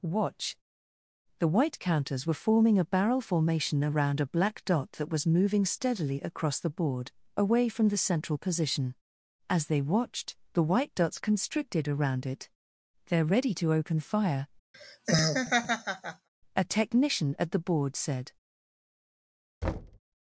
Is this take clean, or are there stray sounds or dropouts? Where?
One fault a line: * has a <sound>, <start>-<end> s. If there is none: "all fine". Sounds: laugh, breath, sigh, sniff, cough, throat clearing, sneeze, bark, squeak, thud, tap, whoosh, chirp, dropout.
* has a laugh, 14.7-16.3 s
* has a thud, 19.6-20.0 s